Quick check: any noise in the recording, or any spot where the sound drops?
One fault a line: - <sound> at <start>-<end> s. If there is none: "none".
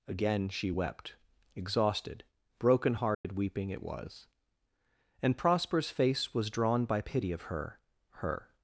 - dropout at 3.1-3.2 s